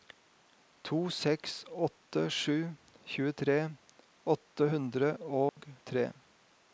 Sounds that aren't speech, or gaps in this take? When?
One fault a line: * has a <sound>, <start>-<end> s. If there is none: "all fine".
* has a dropout, 5.5-5.6 s